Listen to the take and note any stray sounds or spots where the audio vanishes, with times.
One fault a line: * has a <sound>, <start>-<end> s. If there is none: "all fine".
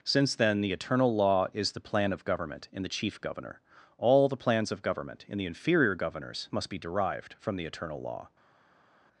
all fine